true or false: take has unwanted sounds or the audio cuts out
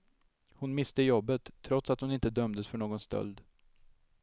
false